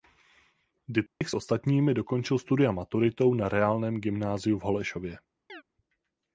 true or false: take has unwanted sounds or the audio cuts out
true